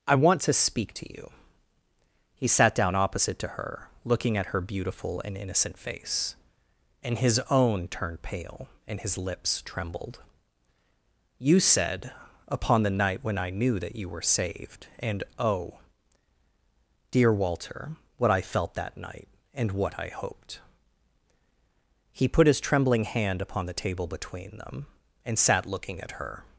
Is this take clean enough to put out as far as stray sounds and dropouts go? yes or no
yes